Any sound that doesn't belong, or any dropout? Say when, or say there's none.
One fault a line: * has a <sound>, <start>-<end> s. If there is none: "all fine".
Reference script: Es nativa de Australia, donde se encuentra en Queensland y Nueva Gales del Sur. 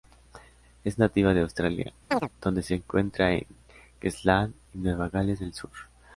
* has a chirp, 2.1-2.3 s